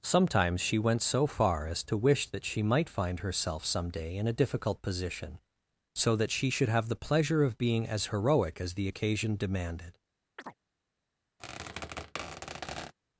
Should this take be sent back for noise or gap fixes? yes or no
yes